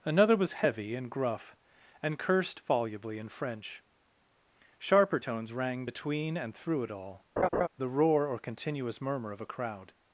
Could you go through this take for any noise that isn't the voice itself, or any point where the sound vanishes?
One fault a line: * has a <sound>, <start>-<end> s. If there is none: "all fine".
* has a laugh, 7.4-7.7 s